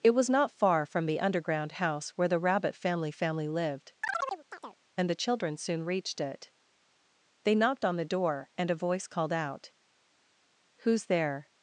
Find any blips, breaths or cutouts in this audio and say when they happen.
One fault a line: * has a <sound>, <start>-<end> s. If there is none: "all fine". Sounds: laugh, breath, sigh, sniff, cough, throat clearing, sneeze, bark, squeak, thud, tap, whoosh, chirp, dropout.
* has a chirp, 4.0-4.8 s